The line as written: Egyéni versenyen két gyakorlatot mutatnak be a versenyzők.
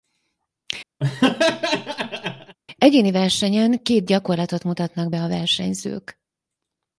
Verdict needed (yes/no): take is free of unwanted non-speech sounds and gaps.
no